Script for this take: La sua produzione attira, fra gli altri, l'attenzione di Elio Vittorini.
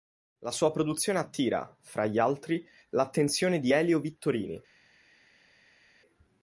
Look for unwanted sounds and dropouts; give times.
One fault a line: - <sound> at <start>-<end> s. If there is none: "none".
none